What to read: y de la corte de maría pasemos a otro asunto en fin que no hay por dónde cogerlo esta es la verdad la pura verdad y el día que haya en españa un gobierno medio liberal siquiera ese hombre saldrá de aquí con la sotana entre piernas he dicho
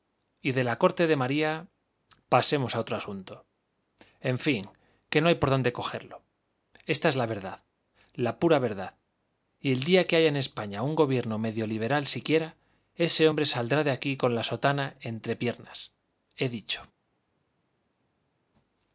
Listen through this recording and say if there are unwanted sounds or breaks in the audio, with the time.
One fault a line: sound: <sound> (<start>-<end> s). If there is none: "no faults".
no faults